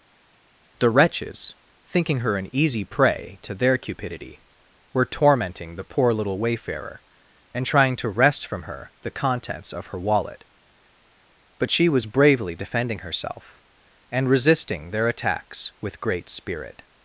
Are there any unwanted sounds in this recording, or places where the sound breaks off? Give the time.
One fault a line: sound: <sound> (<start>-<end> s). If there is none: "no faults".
no faults